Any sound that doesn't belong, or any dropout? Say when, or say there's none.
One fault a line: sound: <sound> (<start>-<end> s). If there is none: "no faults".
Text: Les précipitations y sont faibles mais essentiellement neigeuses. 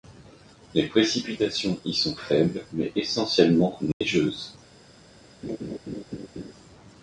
sound: dropout (3.9-4.0 s)
sound: laugh (5.4-6.5 s)